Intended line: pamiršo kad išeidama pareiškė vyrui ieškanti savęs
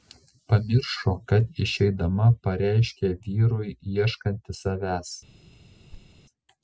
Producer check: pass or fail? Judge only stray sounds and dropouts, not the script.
fail